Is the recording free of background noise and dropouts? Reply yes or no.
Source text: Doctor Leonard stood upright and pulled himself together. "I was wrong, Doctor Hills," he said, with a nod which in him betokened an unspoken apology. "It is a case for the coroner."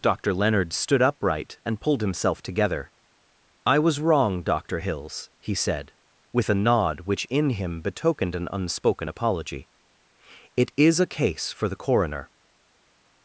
yes